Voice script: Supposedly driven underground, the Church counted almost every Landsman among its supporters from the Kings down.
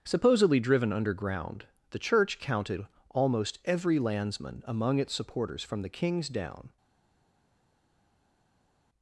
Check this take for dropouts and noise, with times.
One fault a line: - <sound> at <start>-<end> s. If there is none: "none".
none